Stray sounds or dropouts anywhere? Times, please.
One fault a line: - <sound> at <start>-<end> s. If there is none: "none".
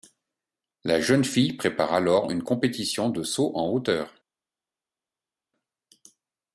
none